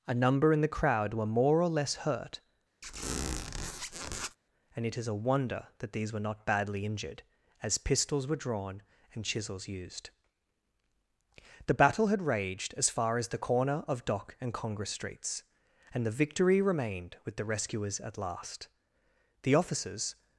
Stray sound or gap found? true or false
true